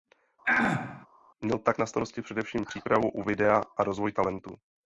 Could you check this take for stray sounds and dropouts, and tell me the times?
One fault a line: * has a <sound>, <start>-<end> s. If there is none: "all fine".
* has a throat clearing, 0.4-1.1 s